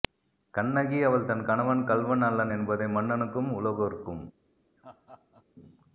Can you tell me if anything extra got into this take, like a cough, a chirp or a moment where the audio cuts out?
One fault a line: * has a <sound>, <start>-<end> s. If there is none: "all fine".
* has a laugh, 4.8-5.4 s